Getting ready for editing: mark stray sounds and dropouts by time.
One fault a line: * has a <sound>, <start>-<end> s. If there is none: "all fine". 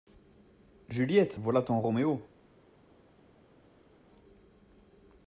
all fine